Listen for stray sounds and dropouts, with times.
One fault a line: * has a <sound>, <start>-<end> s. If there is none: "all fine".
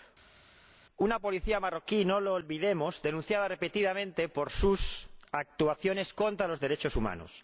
all fine